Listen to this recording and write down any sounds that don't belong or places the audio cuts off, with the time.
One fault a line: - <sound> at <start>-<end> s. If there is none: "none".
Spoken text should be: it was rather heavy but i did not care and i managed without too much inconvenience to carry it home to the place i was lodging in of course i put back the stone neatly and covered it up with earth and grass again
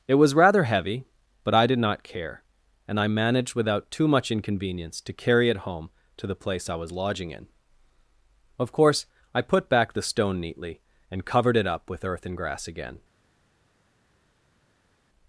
none